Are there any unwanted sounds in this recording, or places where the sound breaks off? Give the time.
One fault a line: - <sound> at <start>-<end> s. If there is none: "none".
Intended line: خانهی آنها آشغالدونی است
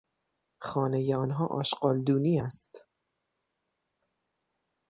none